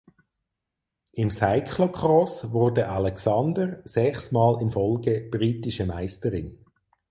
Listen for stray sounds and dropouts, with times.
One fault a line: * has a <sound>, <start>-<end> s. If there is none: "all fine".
all fine